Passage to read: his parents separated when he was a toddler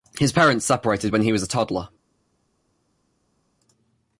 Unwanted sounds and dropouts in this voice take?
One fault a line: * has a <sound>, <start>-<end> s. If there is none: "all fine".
all fine